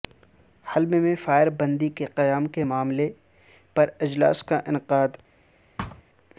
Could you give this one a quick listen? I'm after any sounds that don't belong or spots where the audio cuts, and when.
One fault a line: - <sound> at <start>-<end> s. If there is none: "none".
- thud at 5.8-6.0 s